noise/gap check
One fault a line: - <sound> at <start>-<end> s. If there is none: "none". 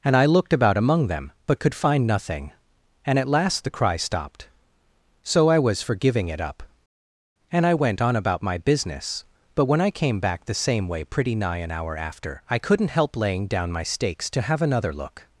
none